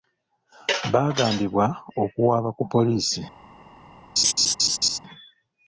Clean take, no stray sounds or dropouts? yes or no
no